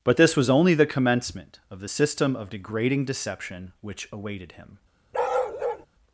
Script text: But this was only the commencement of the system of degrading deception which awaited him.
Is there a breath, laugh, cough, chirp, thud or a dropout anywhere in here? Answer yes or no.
yes